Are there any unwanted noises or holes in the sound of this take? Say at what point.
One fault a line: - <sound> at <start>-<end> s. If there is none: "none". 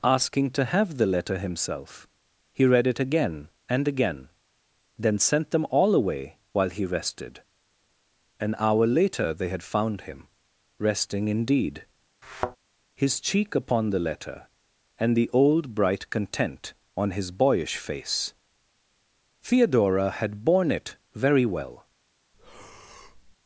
- thud at 12.2-12.6 s
- breath at 22.3-23.4 s